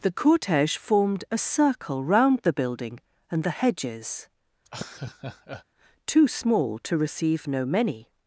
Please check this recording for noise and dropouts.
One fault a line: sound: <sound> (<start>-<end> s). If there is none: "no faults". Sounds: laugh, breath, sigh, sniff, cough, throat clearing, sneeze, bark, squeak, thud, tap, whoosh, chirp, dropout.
sound: laugh (4.6-5.6 s)